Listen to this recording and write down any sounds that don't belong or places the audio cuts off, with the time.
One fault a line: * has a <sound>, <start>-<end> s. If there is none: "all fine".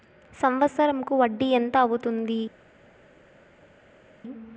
all fine